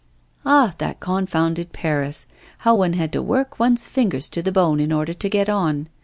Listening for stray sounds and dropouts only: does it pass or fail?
pass